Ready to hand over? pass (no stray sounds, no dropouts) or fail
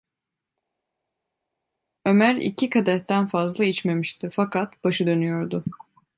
pass